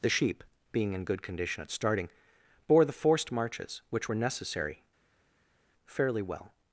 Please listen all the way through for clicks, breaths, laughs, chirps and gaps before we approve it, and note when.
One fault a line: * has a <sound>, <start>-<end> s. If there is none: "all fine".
all fine